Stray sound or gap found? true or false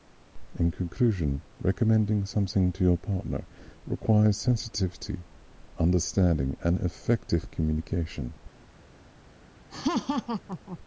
true